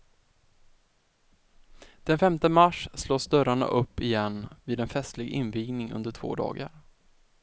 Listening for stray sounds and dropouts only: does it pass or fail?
pass